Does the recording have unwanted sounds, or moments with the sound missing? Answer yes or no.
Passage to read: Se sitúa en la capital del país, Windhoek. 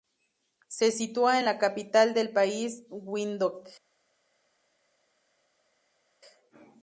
no